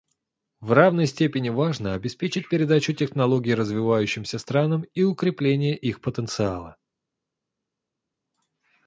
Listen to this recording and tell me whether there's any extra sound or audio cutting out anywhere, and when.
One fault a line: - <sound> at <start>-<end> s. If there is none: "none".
none